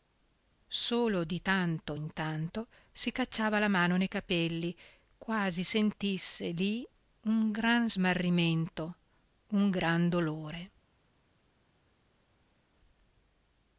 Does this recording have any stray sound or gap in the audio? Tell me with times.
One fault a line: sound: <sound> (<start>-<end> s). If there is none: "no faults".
no faults